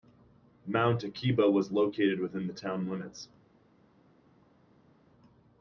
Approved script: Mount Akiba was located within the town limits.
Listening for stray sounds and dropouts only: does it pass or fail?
pass